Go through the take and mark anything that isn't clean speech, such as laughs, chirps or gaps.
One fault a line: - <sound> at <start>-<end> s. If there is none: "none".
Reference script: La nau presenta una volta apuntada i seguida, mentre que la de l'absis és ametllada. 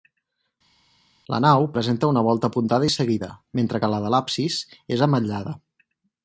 none